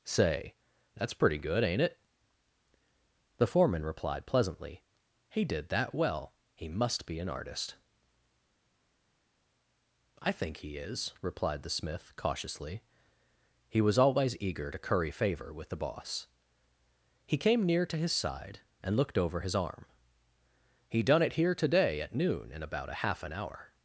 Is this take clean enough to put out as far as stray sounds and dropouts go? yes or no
yes